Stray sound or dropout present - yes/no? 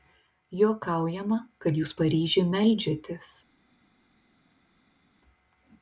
no